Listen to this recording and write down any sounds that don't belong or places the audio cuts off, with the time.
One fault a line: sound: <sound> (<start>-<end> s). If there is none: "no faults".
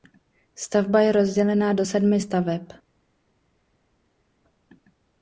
no faults